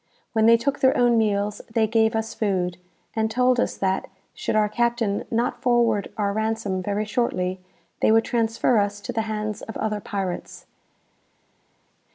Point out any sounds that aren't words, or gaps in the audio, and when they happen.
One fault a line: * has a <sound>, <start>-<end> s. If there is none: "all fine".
all fine